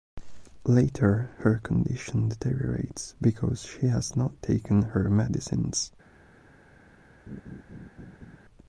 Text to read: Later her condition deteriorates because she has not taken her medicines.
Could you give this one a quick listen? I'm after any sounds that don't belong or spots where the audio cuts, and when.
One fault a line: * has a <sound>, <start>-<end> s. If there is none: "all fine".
* has a laugh, 7.3-8.4 s